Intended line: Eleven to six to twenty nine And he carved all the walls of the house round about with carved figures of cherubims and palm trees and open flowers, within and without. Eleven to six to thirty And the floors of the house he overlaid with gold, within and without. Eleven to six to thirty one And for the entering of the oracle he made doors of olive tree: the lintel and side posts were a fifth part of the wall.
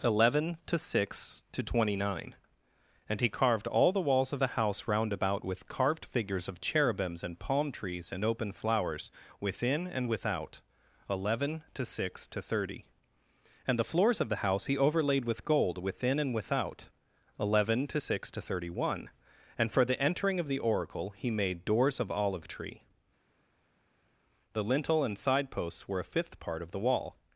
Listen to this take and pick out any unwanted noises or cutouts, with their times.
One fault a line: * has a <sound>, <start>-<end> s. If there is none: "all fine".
all fine